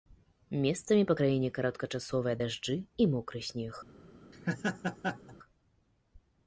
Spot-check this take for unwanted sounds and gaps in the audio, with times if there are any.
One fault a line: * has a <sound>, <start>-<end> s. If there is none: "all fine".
* has a laugh, 4.3-5.4 s